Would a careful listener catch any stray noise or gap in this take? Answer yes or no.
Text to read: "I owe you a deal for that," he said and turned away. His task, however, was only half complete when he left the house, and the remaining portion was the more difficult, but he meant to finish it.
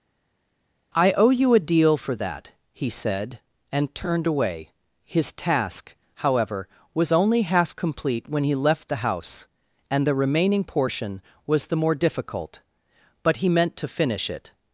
no